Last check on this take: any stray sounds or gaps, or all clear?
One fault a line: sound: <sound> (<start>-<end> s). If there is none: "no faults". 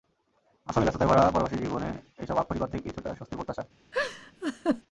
sound: laugh (3.9-4.8 s)